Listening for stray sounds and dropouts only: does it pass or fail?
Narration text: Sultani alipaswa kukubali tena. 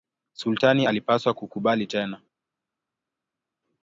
pass